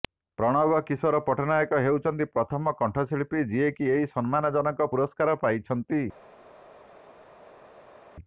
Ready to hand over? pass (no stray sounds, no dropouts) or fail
pass